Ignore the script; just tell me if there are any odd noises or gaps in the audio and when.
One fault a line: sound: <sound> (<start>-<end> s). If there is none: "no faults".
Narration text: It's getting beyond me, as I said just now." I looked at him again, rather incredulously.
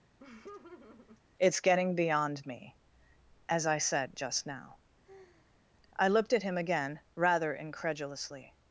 sound: laugh (0.2-1.2 s)
sound: sigh (5.0-5.6 s)